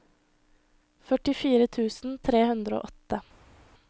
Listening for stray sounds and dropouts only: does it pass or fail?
pass